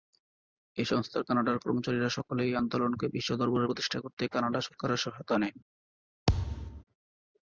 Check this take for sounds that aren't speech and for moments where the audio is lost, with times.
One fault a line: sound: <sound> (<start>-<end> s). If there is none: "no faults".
sound: thud (6.3-6.8 s)